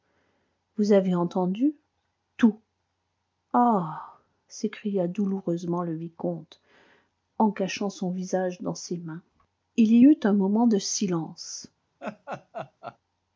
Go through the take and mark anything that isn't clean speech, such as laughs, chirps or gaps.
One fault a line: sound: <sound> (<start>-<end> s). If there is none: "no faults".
sound: laugh (12.0-13.0 s)